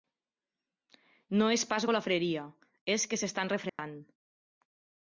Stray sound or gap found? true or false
true